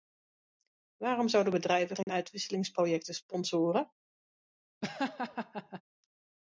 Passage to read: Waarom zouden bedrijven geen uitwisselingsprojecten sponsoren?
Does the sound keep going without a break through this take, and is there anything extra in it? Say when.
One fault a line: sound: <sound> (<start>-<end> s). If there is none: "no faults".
sound: dropout (2.0-2.1 s)
sound: laugh (4.8-5.8 s)